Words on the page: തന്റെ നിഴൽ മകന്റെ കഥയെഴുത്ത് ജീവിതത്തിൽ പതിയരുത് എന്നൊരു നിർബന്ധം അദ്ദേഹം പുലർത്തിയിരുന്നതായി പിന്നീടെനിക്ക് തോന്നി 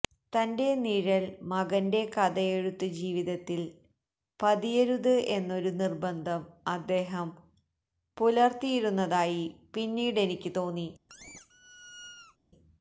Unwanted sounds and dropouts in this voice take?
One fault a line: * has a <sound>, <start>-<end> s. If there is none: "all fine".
* has a squeak, 11.1-12.4 s